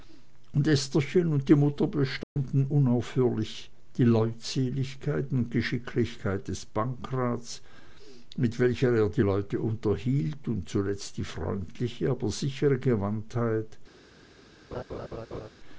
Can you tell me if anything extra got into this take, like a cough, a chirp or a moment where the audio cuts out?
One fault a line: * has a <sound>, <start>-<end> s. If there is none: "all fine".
* has a dropout, 2.2-2.4 s
* has a laugh, 14.7-15.5 s